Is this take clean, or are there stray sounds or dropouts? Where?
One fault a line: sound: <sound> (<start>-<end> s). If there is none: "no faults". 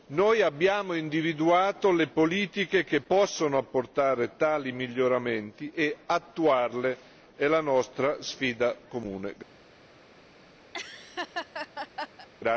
sound: laugh (10.7-12.3 s)